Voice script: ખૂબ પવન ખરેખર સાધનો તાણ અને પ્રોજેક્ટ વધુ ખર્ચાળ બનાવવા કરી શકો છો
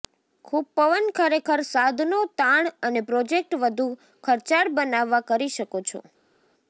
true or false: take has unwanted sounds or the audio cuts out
false